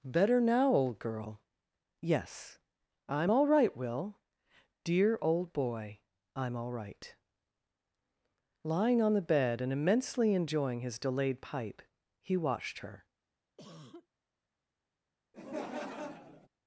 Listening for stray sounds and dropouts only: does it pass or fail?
fail